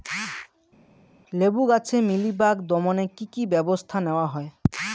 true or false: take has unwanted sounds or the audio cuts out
false